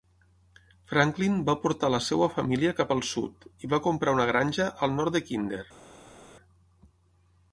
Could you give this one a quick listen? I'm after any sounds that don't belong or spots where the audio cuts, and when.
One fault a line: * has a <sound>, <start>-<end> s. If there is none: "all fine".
all fine